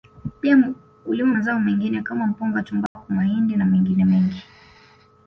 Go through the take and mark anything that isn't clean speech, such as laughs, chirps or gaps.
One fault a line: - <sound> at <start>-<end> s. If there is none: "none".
- dropout at 2.9-3.0 s